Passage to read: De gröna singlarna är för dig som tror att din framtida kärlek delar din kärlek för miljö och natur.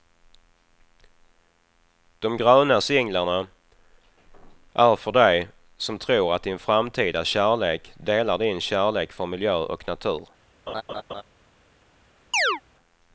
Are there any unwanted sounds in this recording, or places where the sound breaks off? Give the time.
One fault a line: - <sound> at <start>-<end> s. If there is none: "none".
- laugh at 10.7-11.2 s
- chirp at 12.3-12.6 s